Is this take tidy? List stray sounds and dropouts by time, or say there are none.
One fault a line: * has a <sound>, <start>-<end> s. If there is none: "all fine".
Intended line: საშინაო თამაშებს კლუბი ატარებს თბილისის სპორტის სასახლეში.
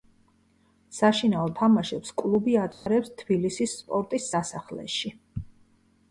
* has a dropout, 2.7-2.9 s